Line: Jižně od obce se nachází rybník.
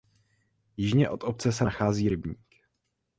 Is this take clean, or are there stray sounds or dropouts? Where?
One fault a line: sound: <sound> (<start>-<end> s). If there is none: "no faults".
no faults